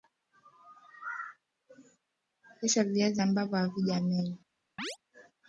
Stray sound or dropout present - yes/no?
yes